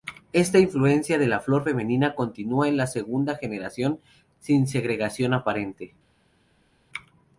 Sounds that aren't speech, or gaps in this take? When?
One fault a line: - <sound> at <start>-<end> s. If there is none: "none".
none